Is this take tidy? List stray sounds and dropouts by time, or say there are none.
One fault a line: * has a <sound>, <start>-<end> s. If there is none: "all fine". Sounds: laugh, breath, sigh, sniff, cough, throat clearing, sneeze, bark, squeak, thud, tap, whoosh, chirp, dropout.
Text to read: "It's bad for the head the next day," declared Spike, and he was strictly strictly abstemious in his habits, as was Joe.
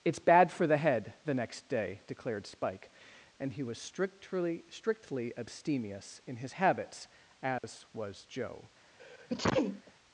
* has a dropout, 7.6-7.6 s
* has a sneeze, 9.0-9.9 s